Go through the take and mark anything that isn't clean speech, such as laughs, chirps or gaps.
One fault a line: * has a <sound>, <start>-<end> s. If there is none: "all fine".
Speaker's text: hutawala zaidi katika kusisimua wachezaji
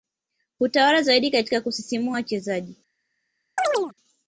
* has a chirp, 3.6-3.9 s